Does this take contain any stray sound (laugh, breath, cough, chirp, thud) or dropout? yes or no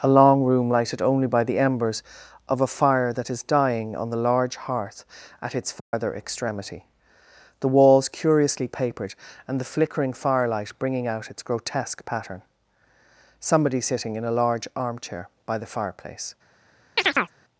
yes